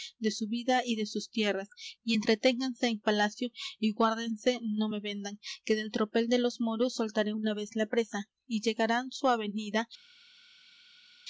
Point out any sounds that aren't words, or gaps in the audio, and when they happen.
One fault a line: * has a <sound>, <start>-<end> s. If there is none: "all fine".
all fine